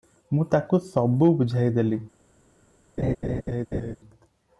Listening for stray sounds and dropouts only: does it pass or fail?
fail